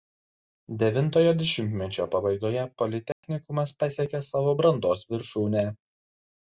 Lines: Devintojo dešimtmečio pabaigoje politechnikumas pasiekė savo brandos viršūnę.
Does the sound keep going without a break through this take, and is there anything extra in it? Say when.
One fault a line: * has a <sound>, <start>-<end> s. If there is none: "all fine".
* has a dropout, 3.1-3.2 s